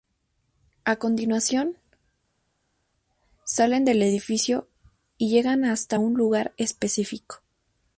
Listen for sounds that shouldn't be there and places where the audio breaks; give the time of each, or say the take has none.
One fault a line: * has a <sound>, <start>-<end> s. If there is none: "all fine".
all fine